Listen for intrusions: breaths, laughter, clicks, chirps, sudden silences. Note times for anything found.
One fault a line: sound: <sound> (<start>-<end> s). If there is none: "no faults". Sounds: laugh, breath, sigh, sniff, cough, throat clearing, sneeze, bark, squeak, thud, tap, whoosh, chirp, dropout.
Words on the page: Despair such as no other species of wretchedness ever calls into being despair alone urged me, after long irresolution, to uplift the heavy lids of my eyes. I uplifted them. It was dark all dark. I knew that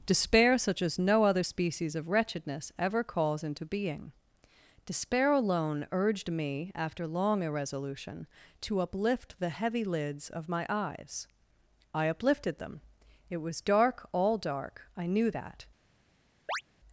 sound: chirp (16.5-16.6 s)